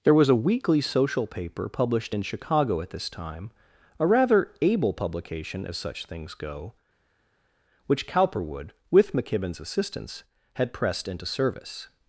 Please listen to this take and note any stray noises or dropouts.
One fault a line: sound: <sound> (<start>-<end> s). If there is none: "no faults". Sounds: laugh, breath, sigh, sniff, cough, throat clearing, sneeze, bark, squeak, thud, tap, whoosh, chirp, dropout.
no faults